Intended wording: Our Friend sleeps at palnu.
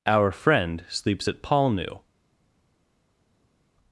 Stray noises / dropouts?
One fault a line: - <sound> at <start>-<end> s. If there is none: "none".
none